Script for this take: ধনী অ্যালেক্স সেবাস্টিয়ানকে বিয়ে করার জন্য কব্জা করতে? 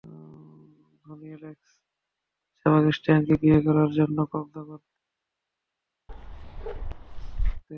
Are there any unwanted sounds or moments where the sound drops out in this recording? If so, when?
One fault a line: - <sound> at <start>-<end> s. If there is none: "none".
- bark at 6.1-7.6 s